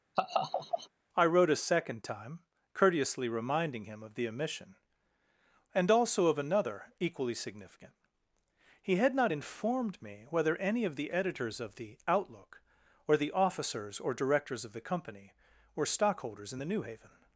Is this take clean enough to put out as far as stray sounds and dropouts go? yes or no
no